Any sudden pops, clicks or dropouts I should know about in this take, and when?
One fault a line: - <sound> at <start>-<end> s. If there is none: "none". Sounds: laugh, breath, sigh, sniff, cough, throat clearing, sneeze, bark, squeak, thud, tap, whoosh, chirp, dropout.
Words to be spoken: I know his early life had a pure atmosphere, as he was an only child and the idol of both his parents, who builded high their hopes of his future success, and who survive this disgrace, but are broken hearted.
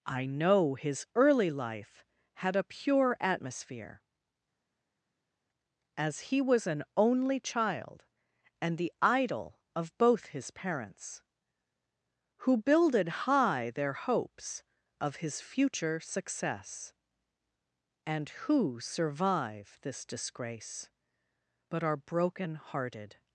none